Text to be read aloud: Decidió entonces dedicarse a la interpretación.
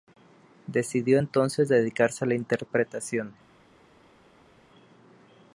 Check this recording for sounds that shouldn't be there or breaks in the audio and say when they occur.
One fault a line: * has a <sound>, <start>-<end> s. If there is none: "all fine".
all fine